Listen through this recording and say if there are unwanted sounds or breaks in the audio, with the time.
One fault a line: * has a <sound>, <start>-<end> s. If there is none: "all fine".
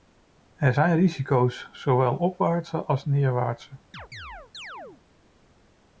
* has a chirp, 3.9-5.0 s